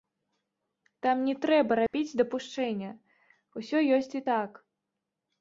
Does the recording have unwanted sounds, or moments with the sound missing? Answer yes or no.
yes